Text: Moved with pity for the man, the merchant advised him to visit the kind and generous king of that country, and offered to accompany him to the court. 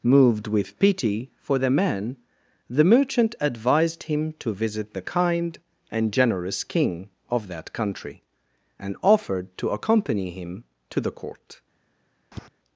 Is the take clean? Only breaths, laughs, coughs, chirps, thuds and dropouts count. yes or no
no